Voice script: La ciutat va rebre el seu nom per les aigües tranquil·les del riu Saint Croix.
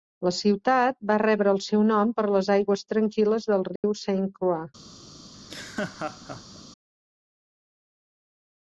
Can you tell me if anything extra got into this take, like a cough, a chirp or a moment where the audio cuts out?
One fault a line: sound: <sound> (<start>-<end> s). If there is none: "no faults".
sound: dropout (3.8-3.8 s)
sound: laugh (5.3-6.6 s)